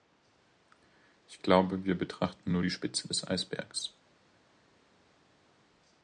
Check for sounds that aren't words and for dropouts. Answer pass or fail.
pass